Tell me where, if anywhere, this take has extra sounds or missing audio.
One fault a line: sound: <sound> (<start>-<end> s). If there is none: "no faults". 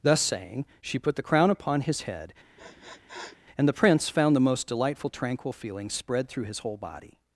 sound: sniff (2.6-3.4 s)